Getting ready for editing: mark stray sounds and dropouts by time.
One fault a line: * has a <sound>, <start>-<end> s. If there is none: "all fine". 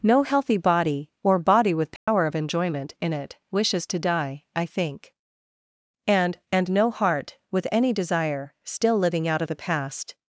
* has a dropout, 2.0-2.1 s